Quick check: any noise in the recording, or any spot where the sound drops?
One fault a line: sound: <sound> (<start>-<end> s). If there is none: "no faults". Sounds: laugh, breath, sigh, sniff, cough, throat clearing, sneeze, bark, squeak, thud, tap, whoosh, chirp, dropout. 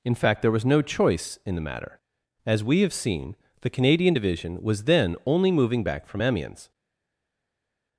no faults